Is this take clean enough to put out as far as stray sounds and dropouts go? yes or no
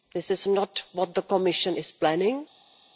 yes